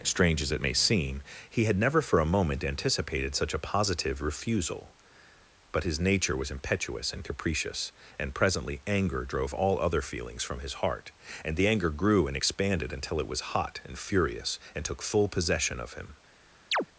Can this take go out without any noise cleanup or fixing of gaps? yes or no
no